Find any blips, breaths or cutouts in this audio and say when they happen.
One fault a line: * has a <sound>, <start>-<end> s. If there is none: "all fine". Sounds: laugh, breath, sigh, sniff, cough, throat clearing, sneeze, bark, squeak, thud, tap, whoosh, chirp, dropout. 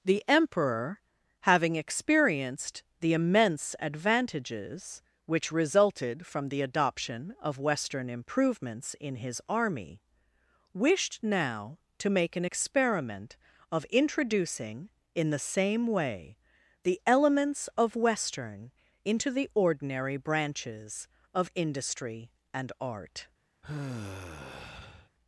* has a sigh, 23.6-25.1 s